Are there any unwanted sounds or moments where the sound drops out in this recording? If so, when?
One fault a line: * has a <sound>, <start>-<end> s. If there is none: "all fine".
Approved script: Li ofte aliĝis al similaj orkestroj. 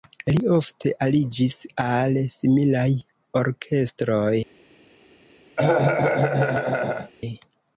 * has a cough, 5.6-7.1 s